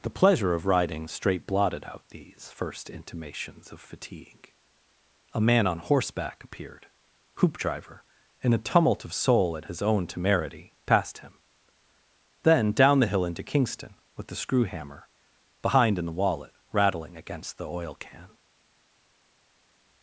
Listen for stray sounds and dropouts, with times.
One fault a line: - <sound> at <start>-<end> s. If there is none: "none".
none